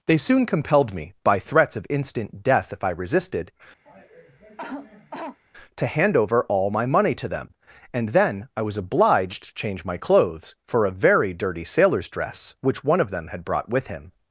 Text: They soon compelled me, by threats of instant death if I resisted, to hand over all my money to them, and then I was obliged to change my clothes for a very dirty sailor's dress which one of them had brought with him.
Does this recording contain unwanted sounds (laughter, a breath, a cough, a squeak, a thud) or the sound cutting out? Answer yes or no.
yes